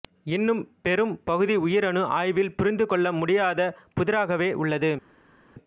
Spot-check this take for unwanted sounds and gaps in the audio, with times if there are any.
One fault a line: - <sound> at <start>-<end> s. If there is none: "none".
none